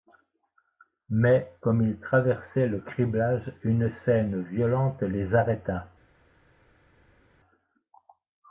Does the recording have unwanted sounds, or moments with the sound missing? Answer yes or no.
no